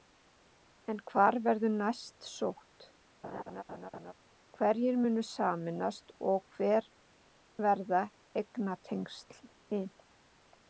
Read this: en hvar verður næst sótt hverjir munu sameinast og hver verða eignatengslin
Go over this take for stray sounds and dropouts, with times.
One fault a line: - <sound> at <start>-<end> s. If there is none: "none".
- laugh at 3.2-4.1 s